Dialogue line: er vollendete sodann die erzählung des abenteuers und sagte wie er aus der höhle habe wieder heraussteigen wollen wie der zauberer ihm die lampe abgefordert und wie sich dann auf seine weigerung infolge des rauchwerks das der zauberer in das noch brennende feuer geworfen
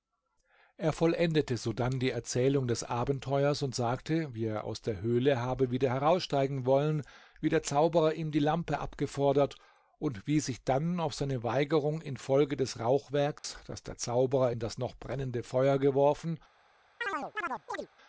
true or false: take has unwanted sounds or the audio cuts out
true